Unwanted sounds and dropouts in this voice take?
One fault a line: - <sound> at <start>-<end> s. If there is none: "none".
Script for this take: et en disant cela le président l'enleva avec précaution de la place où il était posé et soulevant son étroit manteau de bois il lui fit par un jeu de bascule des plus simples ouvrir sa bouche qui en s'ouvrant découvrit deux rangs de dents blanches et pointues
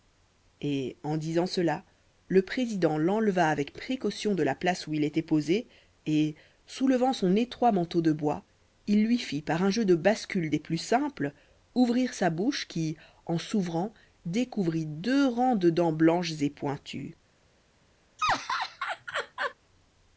- laugh at 18.2-19.5 s